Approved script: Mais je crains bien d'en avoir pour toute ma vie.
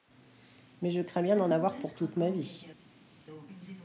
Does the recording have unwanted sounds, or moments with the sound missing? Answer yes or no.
no